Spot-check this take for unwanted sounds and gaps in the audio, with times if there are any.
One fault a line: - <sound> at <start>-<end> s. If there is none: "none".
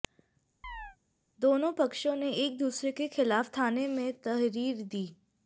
- chirp at 0.6-1.0 s